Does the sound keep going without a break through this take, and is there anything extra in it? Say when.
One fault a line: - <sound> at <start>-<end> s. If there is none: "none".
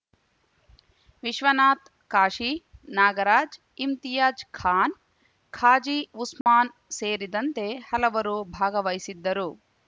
- dropout at 6.4-6.5 s